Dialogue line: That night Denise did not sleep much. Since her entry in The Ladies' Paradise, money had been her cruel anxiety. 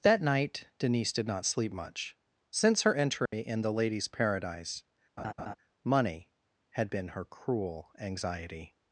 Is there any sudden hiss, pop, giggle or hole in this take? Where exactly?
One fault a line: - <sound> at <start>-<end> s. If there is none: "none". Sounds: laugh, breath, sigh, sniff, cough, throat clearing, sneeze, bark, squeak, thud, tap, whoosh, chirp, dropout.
- dropout at 3.3-3.3 s
- laugh at 5.2-5.6 s